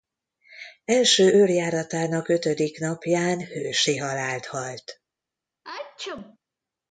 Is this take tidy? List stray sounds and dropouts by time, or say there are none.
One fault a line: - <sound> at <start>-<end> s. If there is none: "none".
- sneeze at 5.6-6.4 s